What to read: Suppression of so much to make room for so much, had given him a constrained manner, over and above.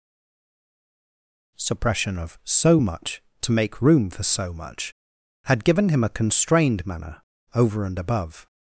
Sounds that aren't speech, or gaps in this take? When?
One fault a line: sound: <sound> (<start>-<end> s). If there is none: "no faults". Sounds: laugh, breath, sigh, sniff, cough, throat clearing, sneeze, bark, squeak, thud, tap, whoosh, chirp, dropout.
no faults